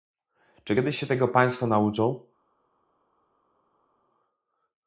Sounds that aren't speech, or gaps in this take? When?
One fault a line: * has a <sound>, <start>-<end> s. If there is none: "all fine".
all fine